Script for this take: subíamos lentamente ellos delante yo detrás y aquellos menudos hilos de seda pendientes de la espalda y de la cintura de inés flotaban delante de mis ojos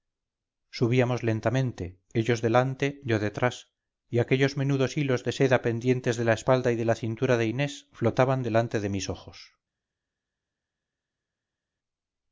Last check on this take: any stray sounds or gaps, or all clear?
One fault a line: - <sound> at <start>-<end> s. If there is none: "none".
none